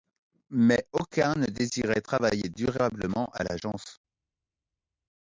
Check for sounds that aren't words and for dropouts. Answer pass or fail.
pass